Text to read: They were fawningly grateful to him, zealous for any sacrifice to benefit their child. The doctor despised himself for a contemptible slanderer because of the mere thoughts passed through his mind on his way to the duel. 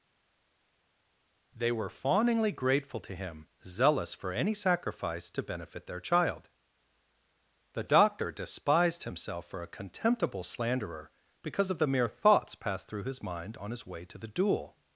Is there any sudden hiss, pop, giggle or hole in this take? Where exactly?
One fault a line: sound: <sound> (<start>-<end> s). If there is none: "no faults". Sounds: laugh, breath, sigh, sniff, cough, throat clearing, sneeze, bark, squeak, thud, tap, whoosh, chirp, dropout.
no faults